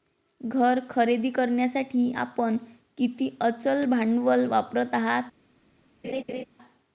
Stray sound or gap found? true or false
true